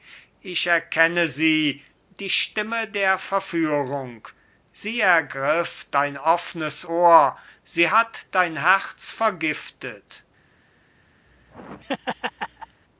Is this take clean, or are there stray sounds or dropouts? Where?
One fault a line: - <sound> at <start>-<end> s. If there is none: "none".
- laugh at 11.3-12.8 s